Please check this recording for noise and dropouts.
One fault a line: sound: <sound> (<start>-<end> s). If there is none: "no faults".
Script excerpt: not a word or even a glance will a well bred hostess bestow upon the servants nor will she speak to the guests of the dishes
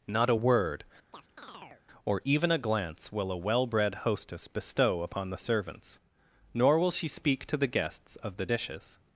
sound: chirp (1.1-1.8 s)